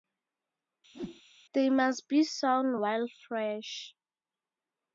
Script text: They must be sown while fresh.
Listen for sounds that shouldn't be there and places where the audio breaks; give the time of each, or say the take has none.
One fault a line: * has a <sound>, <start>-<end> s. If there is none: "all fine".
* has a whoosh, 0.9-1.2 s